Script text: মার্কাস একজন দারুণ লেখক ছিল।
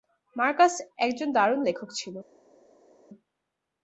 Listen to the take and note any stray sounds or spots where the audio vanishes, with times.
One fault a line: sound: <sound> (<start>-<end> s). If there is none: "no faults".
no faults